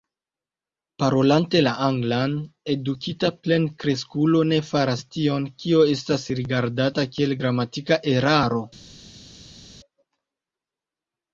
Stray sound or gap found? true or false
false